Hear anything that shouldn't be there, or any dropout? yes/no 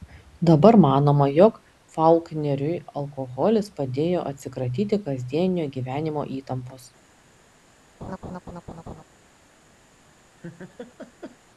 yes